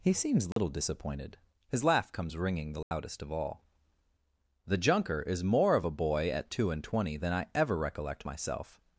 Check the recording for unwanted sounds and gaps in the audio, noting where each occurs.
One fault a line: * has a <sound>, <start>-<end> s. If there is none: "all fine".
* has a dropout, 0.5-0.6 s
* has a dropout, 2.8-2.9 s